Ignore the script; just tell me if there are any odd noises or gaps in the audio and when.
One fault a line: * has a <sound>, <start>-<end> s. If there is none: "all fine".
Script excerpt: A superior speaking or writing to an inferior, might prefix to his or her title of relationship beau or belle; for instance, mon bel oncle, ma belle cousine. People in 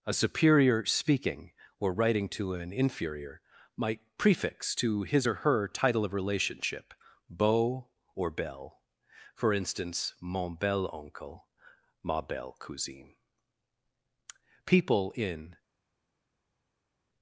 all fine